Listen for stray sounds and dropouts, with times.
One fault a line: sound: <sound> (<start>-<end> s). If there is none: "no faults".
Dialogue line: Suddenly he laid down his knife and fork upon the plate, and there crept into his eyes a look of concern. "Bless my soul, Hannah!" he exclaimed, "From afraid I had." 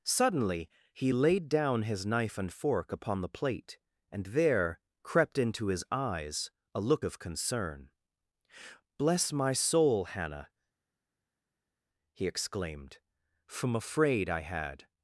no faults